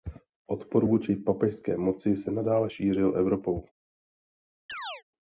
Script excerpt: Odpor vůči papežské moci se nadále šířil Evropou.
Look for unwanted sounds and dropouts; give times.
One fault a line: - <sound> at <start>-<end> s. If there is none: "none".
- chirp at 4.7-5.0 s